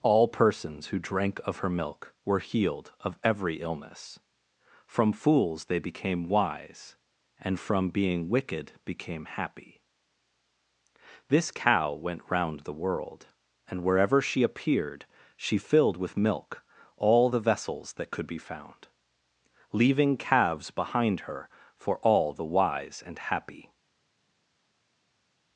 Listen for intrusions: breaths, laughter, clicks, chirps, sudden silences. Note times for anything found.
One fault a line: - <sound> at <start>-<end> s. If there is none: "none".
none